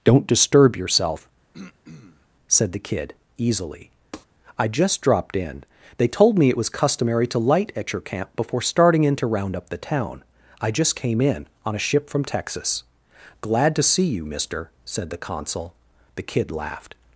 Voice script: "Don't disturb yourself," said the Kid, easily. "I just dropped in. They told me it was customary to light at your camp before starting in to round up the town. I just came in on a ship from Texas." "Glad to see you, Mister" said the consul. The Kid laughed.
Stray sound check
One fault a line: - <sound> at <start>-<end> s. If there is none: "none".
- throat clearing at 1.5-2.3 s
- tap at 4.1-4.3 s